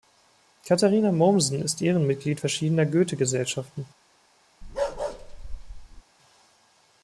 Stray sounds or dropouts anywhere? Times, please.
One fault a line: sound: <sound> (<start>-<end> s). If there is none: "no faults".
sound: bark (4.6-6.0 s)